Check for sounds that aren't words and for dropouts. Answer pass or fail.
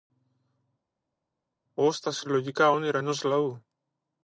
pass